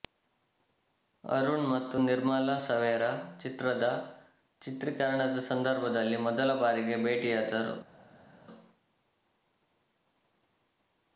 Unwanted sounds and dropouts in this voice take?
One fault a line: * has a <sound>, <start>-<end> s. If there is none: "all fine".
all fine